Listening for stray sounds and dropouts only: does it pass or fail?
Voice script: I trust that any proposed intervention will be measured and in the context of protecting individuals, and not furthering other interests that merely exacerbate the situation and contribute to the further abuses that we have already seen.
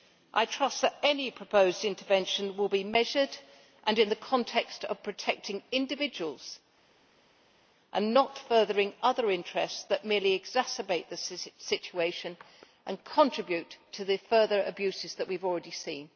pass